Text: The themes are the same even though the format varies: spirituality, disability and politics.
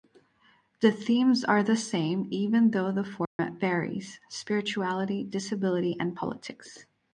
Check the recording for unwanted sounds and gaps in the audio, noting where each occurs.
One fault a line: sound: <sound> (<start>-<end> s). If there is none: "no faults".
sound: dropout (3.3-3.4 s)